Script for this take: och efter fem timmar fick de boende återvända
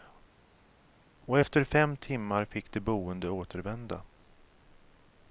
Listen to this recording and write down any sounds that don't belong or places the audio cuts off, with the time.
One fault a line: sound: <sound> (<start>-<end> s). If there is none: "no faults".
no faults